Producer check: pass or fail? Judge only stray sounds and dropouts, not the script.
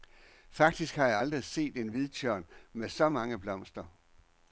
pass